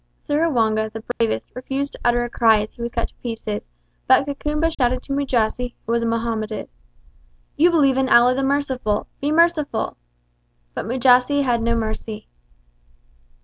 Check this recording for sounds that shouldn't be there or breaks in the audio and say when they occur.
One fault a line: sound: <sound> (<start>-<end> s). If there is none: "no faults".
sound: dropout (1.1-1.2 s)
sound: dropout (4.7-4.8 s)